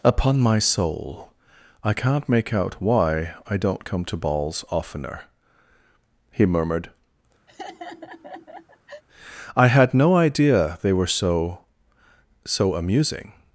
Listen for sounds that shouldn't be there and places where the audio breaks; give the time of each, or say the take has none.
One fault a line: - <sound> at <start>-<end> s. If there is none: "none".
- laugh at 7.5-9.0 s